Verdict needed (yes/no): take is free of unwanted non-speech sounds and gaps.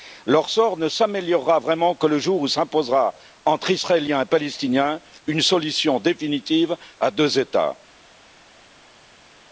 yes